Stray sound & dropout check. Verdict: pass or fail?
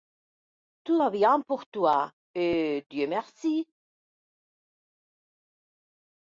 pass